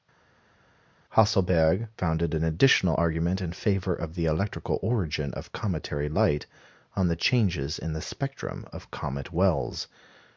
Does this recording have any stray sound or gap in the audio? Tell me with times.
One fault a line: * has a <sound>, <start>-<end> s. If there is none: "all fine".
all fine